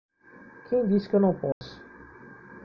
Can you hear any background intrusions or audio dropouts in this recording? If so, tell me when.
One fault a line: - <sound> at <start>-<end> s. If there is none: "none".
- dropout at 1.5-1.6 s